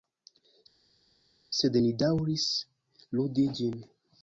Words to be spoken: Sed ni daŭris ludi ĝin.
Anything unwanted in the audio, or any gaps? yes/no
no